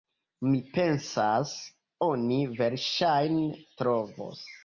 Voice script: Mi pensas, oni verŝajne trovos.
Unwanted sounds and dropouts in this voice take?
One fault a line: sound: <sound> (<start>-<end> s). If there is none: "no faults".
no faults